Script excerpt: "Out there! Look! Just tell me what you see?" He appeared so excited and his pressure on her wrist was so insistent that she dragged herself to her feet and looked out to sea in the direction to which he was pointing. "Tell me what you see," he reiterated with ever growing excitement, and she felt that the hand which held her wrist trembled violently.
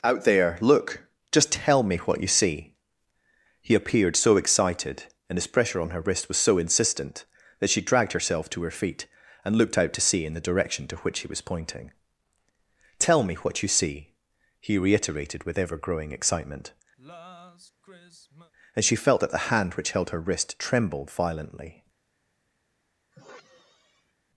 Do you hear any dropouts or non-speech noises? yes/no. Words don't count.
yes